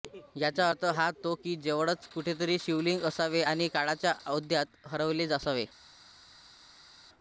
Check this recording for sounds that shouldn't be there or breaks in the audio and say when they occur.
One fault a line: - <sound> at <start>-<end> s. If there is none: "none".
none